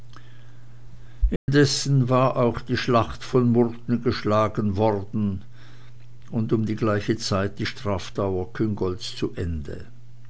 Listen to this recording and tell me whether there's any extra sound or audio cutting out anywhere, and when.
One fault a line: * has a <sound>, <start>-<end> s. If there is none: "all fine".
* has a dropout, 1.4-1.5 s